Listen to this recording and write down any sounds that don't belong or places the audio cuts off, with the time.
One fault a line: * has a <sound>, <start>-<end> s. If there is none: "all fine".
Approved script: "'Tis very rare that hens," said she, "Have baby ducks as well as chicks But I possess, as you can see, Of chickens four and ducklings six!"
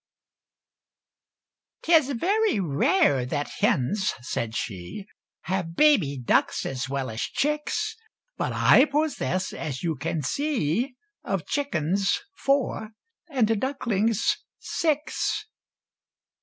all fine